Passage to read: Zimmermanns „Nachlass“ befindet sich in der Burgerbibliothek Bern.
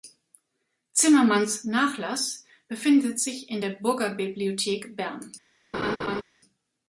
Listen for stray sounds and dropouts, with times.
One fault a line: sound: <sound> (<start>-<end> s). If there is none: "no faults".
sound: laugh (5.7-6.2 s)